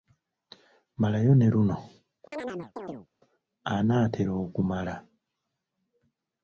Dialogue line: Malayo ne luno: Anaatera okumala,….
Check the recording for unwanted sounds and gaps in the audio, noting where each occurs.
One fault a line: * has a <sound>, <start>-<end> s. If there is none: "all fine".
* has a chirp, 2.3-3.1 s